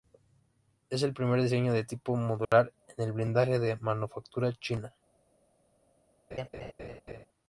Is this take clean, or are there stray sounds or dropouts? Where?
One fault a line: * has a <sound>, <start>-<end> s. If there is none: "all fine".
* has a dropout, 2.5-2.5 s
* has a laugh, 6.3-7.3 s